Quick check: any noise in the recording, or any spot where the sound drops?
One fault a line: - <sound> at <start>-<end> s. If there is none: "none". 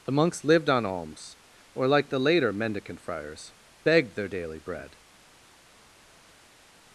none